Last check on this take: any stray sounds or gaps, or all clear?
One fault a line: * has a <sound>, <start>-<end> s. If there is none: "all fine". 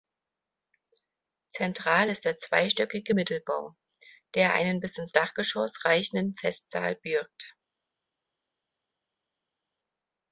all fine